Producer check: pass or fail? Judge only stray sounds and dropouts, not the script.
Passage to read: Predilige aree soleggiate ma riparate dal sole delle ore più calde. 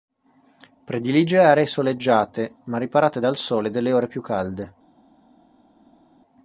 pass